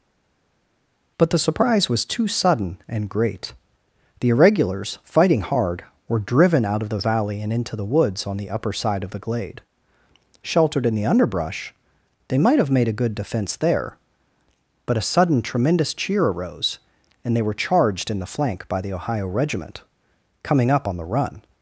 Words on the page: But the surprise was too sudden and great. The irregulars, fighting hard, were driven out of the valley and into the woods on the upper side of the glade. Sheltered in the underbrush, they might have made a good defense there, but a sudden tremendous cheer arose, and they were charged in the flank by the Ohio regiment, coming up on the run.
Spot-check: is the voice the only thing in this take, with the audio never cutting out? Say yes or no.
yes